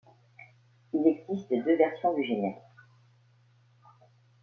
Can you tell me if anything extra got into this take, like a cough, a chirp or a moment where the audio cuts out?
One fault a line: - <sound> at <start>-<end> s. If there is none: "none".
none